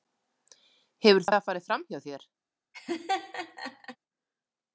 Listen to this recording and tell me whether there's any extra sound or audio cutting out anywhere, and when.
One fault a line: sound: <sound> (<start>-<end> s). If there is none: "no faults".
sound: laugh (2.7-4.0 s)